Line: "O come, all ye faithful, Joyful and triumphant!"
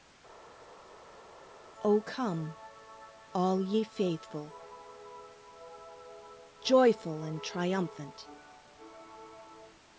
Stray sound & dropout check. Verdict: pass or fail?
pass